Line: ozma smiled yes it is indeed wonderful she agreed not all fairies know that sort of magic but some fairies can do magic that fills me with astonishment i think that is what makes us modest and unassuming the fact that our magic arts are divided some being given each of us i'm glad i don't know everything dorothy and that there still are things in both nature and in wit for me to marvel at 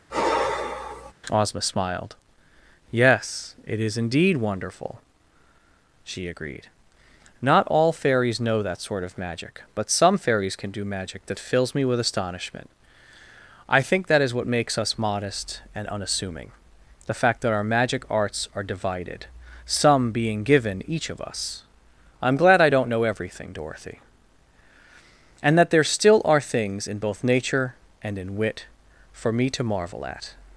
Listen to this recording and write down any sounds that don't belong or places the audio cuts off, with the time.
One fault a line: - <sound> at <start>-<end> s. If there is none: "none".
- sigh at 0.1-1.1 s